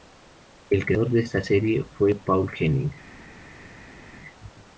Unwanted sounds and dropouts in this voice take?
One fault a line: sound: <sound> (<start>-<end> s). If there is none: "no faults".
no faults